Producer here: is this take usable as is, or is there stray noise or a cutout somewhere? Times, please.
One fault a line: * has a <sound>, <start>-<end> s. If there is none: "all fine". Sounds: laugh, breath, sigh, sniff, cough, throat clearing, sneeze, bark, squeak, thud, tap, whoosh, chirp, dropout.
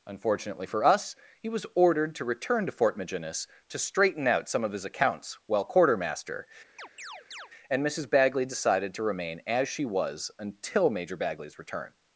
* has a chirp, 6.8-7.5 s